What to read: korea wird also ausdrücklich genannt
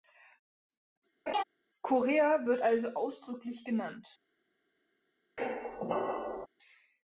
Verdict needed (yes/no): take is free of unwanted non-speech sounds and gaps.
no